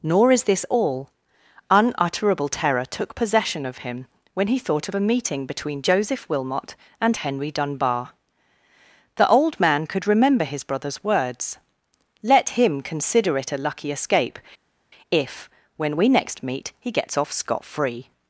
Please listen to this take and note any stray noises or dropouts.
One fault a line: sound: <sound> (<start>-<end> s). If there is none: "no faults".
no faults